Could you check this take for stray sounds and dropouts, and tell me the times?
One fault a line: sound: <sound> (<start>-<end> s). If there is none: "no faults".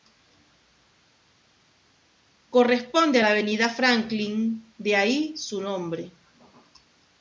no faults